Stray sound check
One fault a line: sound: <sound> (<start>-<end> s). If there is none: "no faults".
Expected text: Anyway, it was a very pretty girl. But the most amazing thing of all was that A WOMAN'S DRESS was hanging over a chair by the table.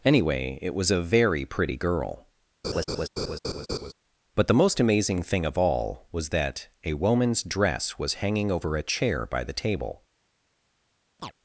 sound: laugh (2.6-3.9 s)
sound: chirp (11.2-11.3 s)